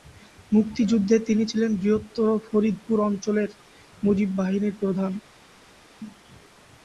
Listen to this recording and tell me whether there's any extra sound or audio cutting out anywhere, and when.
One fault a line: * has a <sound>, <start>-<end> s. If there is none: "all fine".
all fine